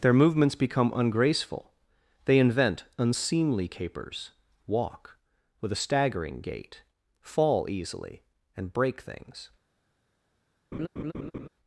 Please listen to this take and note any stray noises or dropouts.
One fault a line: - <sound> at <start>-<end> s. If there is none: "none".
- laugh at 10.7-11.5 s